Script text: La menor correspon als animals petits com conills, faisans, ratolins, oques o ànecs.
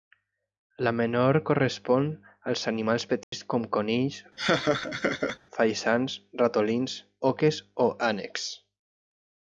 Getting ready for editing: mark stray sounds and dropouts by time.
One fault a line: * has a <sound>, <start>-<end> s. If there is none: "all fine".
* has a dropout, 3.2-3.3 s
* has a laugh, 4.4-5.4 s